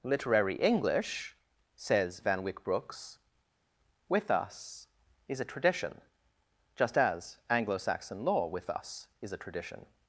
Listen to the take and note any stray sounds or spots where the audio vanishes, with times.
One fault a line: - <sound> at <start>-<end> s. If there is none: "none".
none